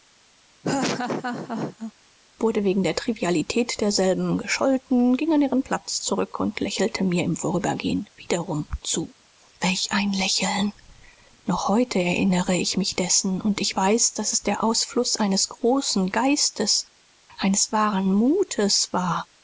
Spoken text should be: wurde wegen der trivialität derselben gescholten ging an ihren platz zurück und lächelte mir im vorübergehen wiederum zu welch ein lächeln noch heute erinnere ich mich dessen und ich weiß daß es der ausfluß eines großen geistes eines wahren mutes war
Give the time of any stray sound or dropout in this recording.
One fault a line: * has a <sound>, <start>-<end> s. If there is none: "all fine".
* has a laugh, 0.6-1.9 s